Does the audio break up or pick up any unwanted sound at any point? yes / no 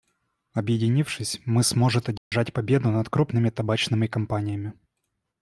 yes